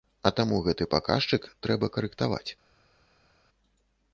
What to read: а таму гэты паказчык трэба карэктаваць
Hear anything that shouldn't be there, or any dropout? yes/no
no